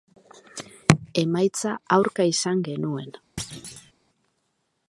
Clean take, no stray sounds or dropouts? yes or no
no